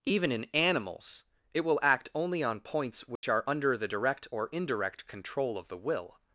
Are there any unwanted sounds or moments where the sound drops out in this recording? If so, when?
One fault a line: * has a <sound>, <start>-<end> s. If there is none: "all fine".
* has a dropout, 3.2-3.2 s